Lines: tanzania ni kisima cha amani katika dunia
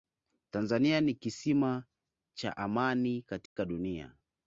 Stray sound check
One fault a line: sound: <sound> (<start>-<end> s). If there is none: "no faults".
sound: dropout (3.5-3.6 s)